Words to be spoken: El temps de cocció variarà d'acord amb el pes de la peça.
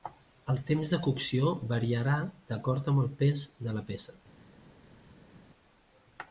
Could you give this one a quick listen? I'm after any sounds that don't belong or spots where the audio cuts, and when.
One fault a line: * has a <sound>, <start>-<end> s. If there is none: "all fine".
all fine